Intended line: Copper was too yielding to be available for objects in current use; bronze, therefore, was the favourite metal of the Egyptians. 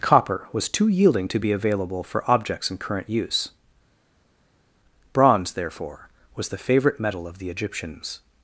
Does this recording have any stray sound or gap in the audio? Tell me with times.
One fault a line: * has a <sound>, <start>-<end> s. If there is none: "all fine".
all fine